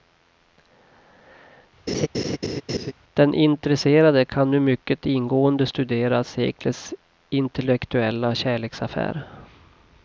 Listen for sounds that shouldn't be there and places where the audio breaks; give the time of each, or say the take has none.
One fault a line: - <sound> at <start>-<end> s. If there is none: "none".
- laugh at 1.9-2.9 s